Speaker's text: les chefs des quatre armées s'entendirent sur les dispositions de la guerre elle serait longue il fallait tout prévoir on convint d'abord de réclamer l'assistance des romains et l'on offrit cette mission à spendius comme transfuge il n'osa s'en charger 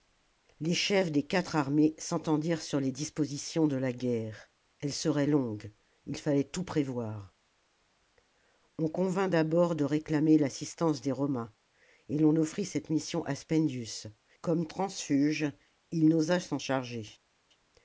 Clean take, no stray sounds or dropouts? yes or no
yes